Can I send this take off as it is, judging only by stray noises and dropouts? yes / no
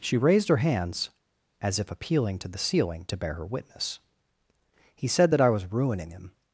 yes